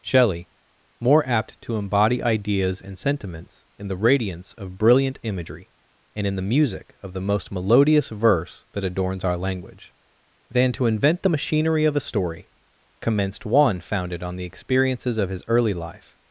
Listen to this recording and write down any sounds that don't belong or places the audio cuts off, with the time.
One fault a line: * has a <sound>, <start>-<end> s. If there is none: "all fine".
all fine